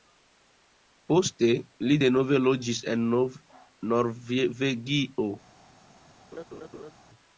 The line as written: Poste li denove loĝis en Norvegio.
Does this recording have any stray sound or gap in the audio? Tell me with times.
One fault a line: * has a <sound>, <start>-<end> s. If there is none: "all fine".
* has a laugh, 6.3-6.9 s